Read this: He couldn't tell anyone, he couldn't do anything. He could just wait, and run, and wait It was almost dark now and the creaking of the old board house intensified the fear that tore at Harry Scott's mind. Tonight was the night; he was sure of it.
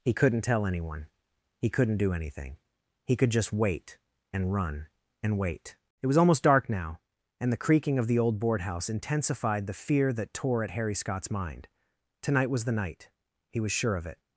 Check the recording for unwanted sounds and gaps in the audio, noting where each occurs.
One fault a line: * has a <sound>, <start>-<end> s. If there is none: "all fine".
all fine